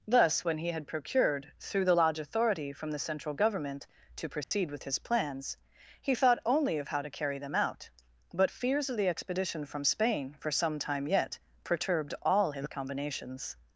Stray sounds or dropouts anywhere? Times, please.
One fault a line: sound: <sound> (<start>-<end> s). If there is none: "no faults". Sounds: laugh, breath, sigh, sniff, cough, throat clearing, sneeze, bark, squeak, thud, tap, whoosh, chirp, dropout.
sound: dropout (4.4-4.5 s)